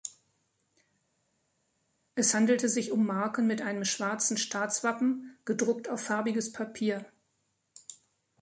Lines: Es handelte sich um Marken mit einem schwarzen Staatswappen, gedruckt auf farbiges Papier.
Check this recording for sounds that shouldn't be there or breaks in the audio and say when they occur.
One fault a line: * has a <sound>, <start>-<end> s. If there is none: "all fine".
all fine